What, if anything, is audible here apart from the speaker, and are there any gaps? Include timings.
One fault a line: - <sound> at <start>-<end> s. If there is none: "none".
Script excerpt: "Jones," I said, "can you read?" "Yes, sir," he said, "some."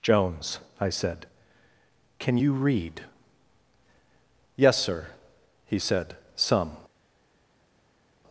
none